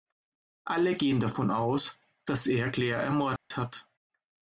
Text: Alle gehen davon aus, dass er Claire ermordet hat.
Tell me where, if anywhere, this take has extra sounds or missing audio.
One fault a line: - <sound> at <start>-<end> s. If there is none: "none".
- dropout at 3.4-3.5 s